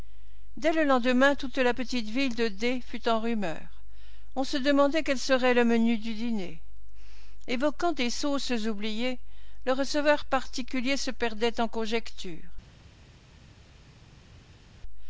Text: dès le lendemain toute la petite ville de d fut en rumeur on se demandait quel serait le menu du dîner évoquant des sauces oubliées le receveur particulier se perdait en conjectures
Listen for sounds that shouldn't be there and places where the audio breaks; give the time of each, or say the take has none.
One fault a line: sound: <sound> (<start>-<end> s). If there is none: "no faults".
no faults